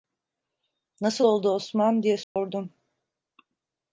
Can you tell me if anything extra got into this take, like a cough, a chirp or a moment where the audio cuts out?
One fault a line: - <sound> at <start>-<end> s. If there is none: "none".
- dropout at 2.2-2.4 s